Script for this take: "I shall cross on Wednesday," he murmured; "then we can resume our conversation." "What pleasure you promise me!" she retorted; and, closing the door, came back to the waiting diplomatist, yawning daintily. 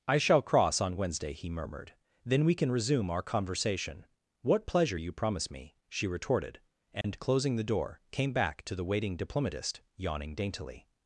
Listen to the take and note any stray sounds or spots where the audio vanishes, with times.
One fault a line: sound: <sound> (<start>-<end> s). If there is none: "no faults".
sound: dropout (7.0-7.0 s)